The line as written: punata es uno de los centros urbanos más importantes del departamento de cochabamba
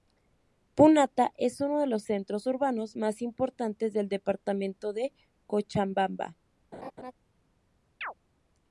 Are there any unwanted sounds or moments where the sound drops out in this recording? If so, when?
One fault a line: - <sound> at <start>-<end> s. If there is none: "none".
- laugh at 6.7-7.1 s
- chirp at 8.0-8.1 s